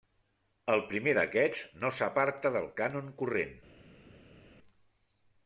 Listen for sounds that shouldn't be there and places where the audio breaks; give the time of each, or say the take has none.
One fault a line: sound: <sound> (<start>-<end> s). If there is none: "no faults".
no faults